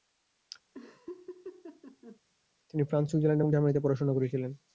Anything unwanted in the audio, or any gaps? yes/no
yes